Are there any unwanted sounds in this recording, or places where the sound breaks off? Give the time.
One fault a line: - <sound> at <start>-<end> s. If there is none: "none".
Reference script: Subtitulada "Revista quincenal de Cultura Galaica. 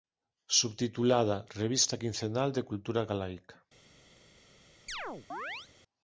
- chirp at 4.9-5.7 s